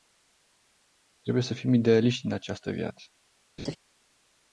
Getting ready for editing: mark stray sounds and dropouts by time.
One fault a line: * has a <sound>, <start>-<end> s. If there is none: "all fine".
* has a laugh, 3.6-3.8 s